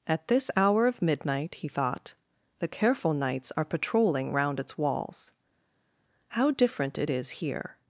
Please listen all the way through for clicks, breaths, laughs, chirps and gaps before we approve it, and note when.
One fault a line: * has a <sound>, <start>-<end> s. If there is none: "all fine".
all fine